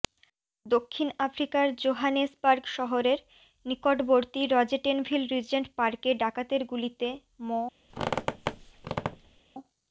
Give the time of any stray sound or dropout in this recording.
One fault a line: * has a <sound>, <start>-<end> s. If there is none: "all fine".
* has a squeak, 7.9-9.4 s